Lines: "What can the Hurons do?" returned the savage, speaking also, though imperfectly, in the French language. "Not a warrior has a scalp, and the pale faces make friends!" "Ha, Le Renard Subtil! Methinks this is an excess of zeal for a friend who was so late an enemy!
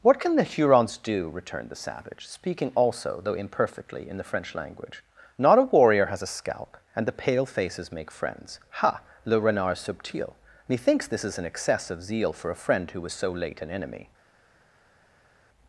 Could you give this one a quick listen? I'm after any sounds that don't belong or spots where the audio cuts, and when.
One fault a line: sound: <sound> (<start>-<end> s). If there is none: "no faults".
no faults